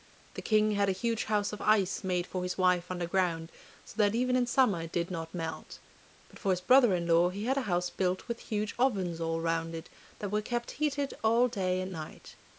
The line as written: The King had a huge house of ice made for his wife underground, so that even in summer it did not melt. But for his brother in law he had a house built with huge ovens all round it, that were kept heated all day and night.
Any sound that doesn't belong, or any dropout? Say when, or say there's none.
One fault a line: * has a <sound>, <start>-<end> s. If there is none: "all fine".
all fine